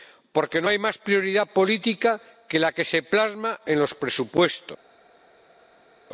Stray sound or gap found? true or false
false